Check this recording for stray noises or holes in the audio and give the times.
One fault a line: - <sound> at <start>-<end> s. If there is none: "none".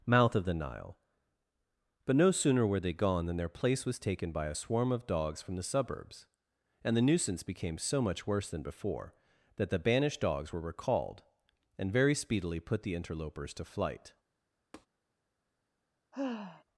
- tap at 14.7-14.9 s
- sigh at 16.1-16.6 s